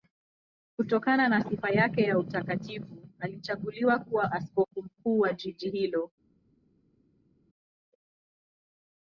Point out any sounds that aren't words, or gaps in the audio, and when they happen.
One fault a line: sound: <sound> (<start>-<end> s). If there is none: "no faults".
no faults